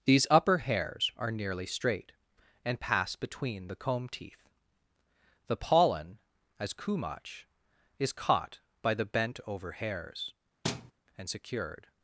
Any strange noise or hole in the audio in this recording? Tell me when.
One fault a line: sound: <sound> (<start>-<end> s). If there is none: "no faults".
sound: thud (10.6-10.9 s)